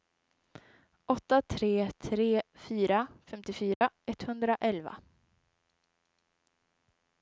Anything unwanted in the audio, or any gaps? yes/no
yes